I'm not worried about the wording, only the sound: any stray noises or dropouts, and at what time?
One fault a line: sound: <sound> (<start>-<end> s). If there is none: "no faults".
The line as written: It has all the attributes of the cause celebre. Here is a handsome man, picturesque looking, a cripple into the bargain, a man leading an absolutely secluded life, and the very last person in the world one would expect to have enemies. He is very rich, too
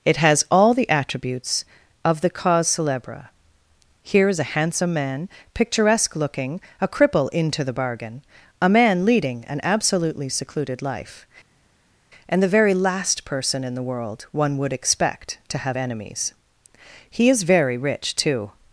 no faults